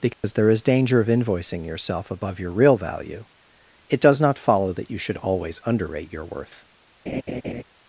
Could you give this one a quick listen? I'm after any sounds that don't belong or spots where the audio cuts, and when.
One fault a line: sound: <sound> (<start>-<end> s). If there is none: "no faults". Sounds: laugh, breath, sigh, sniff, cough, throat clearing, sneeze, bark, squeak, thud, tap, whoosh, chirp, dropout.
sound: dropout (0.1-0.2 s)
sound: laugh (7.1-7.6 s)